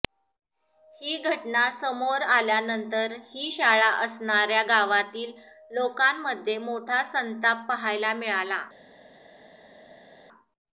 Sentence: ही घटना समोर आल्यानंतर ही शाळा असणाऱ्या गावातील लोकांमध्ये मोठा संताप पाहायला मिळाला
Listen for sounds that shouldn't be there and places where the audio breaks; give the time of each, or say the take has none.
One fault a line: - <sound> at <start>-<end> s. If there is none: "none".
none